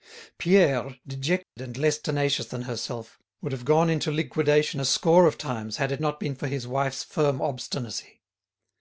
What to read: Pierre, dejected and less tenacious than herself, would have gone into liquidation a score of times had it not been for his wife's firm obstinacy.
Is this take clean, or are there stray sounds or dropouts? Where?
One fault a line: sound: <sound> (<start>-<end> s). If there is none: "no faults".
sound: dropout (1.4-1.6 s)